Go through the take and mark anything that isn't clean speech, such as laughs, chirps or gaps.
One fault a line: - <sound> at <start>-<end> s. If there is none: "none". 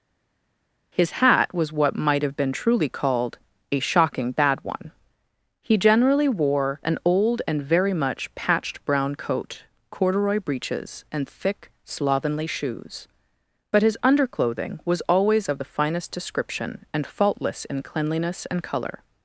none